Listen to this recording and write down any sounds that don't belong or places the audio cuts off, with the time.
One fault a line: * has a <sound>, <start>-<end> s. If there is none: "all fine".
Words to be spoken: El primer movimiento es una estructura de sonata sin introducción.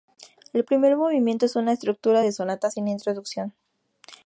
all fine